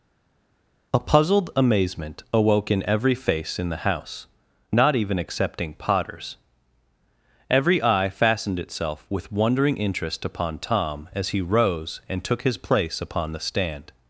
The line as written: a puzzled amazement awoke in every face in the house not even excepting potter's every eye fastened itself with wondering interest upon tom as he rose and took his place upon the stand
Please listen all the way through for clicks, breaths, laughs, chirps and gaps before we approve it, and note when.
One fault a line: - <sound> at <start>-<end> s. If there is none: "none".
none